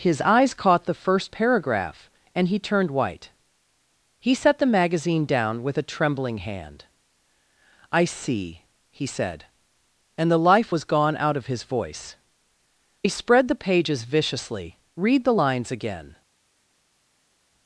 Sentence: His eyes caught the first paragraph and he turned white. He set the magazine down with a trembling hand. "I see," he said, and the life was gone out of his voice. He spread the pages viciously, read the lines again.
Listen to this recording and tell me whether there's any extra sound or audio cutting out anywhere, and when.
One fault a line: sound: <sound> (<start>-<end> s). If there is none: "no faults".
no faults